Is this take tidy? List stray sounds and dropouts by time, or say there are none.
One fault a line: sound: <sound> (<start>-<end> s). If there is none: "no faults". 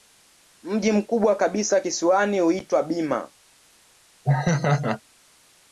sound: laugh (4.2-5.0 s)